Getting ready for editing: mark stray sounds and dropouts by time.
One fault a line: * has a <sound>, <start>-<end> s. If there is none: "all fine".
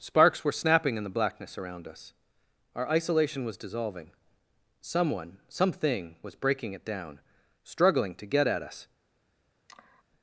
* has a sigh, 9.7-10.0 s